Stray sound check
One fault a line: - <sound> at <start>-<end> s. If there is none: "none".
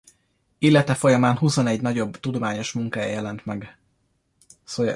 none